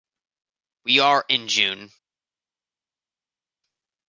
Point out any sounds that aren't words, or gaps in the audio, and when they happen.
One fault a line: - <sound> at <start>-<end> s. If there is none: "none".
none